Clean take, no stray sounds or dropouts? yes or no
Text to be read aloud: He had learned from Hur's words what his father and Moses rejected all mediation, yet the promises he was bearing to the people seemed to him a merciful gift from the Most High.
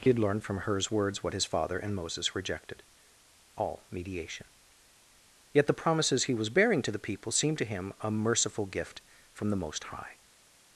yes